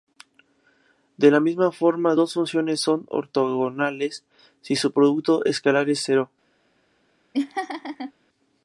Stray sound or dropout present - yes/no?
yes